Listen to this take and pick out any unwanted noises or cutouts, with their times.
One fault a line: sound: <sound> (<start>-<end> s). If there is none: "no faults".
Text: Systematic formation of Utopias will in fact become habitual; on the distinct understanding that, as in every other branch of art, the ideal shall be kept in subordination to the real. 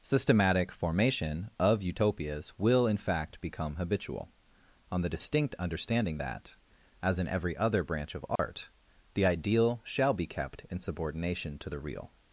sound: dropout (8.4-8.4 s)